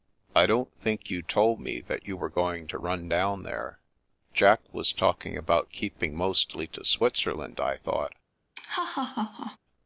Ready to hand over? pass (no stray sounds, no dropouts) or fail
fail